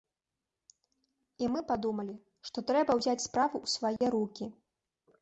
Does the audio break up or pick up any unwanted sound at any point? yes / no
yes